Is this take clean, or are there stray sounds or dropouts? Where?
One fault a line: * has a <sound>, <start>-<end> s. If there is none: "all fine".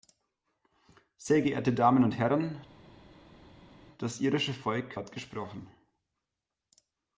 all fine